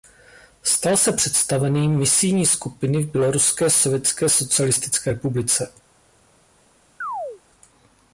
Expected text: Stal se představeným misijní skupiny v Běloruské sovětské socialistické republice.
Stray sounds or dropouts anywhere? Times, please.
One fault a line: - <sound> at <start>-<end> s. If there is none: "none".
- chirp at 7.0-7.4 s